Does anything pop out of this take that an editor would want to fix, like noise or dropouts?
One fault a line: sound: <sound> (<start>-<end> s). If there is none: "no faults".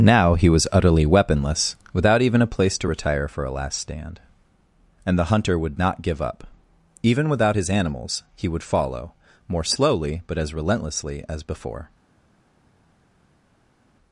no faults